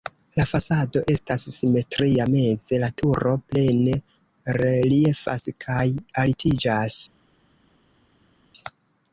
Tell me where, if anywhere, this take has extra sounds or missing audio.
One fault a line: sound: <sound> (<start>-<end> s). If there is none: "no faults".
no faults